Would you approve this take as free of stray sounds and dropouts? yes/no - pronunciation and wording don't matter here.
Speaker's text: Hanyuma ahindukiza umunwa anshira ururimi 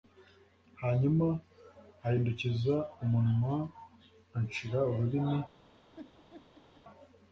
no